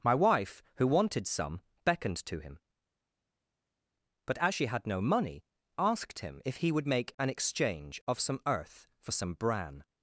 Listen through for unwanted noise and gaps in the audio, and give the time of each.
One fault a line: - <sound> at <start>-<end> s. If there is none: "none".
none